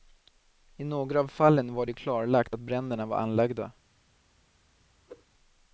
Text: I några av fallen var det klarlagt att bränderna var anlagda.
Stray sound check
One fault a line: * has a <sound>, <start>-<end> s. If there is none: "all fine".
* has a whoosh, 5.1-5.3 s